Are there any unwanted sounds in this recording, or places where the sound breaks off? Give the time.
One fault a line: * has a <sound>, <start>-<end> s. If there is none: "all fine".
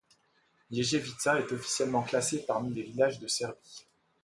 all fine